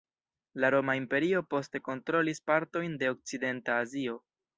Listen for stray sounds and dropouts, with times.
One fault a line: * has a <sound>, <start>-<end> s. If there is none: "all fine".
all fine